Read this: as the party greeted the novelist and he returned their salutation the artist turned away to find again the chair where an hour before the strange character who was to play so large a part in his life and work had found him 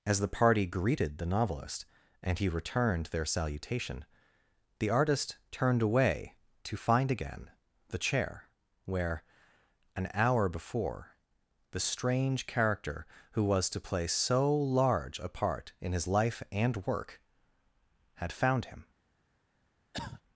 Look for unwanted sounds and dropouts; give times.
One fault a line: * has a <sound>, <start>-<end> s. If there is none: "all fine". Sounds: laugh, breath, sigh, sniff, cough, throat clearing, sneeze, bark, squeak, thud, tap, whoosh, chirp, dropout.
* has a cough, 19.9-20.2 s